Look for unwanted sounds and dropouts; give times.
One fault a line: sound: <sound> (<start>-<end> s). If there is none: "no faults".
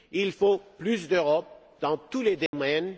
sound: dropout (2.5-2.5 s)